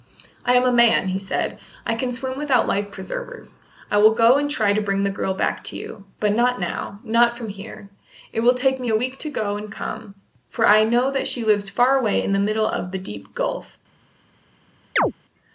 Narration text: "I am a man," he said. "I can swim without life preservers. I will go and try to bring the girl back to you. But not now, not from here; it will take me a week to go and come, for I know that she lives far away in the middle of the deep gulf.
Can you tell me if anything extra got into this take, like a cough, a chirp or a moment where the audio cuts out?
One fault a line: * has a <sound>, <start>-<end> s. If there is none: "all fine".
* has a chirp, 15.0-15.1 s